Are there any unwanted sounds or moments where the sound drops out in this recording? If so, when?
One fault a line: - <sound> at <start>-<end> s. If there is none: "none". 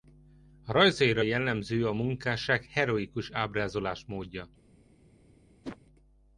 - whoosh at 5.6-5.8 s